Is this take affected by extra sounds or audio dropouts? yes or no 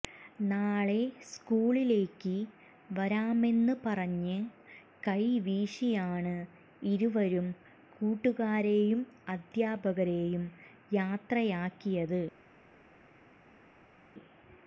no